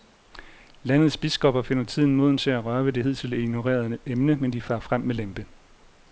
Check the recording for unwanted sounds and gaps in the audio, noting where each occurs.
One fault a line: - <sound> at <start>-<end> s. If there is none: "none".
none